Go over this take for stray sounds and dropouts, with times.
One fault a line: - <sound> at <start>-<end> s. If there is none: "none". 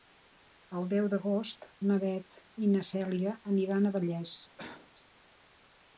- cough at 4.6-4.9 s